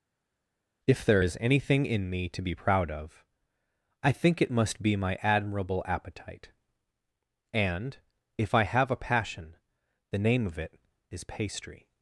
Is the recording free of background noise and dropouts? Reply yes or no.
yes